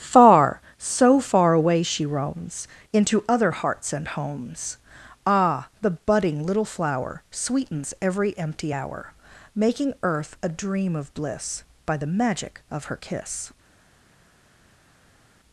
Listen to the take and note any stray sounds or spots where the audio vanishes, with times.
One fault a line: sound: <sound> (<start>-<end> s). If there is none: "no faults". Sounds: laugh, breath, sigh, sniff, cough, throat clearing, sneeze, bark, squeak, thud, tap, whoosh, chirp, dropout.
no faults